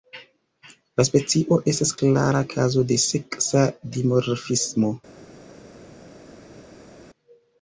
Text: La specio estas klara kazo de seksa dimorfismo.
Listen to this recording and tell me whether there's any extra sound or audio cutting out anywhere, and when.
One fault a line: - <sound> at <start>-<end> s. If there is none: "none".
none